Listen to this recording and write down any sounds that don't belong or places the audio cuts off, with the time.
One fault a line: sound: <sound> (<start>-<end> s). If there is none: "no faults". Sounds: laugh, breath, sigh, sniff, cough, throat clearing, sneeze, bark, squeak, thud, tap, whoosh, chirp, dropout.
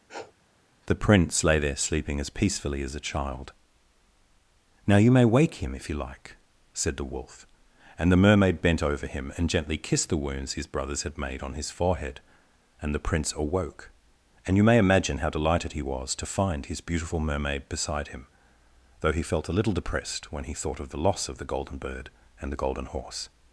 sound: sniff (0.1-0.3 s)